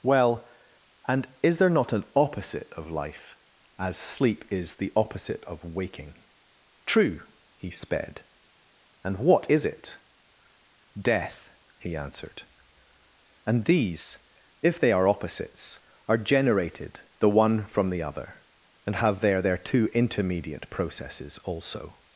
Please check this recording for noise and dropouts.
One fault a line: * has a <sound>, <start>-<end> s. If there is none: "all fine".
all fine